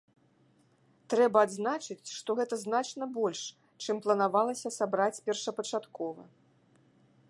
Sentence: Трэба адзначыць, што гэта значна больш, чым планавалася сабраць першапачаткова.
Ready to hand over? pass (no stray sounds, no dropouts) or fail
pass